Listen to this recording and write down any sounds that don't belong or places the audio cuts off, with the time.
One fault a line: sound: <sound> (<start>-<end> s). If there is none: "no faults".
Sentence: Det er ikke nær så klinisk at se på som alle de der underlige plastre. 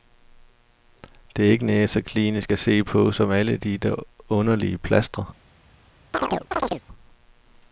sound: chirp (6.1-6.8 s)